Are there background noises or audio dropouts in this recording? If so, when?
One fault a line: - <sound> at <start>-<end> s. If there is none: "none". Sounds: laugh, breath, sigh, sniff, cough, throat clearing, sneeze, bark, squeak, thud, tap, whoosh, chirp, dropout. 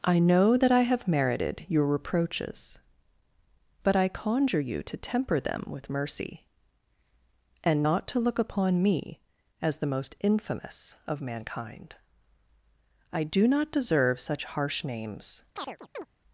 - chirp at 15.6-16.1 s